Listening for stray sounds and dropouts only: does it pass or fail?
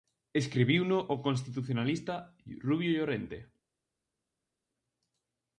pass